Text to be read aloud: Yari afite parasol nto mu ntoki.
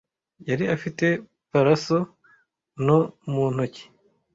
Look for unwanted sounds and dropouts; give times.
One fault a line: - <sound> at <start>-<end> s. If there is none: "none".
none